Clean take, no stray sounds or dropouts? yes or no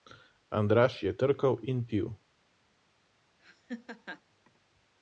no